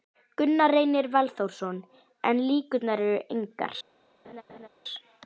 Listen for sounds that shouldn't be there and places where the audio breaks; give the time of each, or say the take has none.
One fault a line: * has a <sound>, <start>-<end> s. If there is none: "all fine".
* has a laugh, 4.2-4.7 s